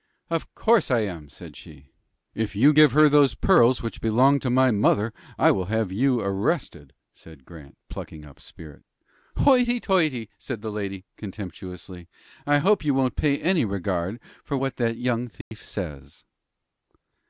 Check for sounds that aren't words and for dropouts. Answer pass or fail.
fail